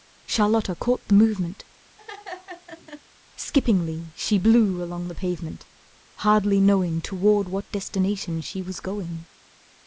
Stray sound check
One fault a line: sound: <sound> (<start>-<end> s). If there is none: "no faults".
sound: laugh (2.0-3.0 s)